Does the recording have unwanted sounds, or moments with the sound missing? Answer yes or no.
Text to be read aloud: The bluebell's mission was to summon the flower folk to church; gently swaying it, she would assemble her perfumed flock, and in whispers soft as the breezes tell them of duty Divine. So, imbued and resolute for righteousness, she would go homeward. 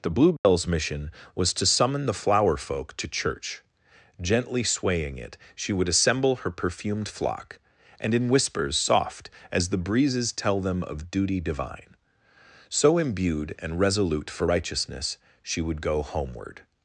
yes